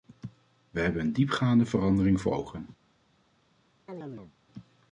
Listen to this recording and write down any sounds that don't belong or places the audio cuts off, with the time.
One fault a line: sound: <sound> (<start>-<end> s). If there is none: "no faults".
sound: chirp (3.9-4.3 s)